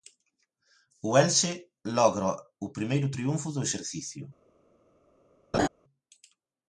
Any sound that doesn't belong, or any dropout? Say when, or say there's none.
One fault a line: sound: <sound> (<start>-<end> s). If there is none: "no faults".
sound: laugh (5.5-5.7 s)